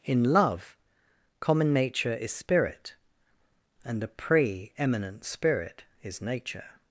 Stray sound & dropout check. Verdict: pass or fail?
pass